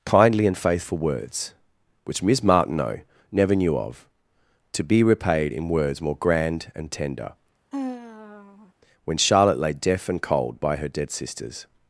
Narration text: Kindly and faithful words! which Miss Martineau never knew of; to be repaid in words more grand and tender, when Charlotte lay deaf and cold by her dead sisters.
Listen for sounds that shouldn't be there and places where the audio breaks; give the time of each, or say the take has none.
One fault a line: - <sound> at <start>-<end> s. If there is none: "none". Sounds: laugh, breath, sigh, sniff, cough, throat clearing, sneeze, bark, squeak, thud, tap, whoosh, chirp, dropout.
- sigh at 7.7-8.7 s